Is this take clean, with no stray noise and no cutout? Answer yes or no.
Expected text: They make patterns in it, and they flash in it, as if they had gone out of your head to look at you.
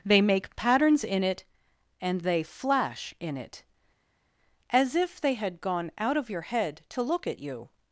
yes